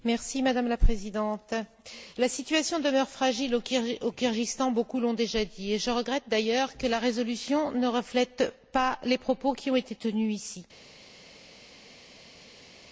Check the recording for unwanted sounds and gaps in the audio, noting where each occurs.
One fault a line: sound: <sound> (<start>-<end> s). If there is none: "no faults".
no faults